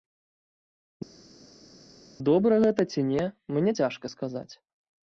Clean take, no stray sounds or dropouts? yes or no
yes